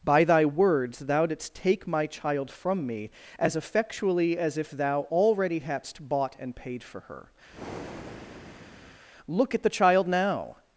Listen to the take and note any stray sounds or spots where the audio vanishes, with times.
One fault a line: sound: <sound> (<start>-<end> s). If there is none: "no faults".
sound: breath (7.5-9.0 s)